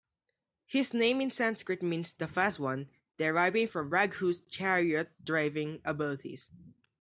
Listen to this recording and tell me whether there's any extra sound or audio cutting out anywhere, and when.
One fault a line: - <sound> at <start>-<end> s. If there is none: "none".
none